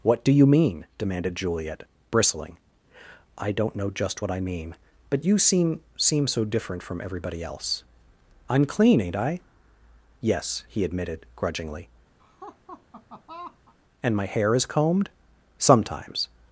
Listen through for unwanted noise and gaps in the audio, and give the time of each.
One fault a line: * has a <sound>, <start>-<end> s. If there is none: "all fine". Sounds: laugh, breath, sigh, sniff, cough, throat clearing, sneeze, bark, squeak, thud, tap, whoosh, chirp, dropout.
* has a laugh, 12.2-13.7 s